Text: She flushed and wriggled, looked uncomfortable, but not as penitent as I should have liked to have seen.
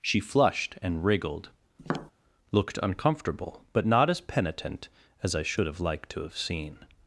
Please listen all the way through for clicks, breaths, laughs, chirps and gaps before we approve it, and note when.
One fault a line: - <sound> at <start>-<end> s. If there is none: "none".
- tap at 1.8-2.1 s